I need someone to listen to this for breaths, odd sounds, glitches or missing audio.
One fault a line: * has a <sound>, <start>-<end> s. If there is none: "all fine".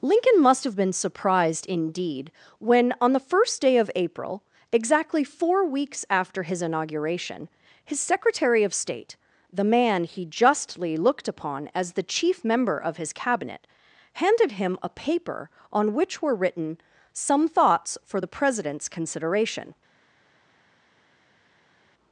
all fine